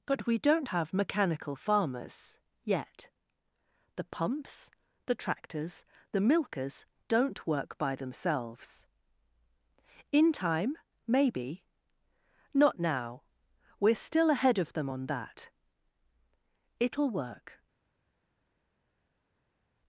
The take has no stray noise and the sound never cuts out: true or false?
true